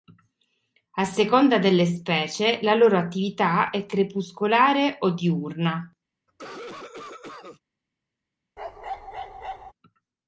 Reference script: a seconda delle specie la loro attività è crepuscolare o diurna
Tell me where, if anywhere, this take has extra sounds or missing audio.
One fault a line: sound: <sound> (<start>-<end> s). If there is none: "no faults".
sound: cough (6.3-7.6 s)
sound: bark (8.6-9.7 s)